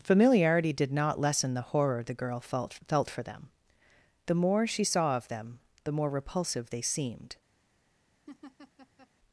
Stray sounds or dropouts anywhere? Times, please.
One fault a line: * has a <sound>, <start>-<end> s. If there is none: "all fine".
* has a laugh, 8.3-9.1 s